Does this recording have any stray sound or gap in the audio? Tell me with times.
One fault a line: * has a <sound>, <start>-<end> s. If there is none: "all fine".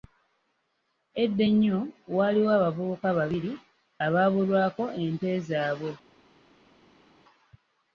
all fine